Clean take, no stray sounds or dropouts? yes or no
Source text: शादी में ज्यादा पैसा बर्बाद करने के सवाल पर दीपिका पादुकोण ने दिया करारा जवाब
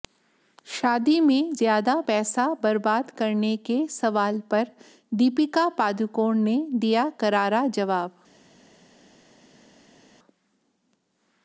yes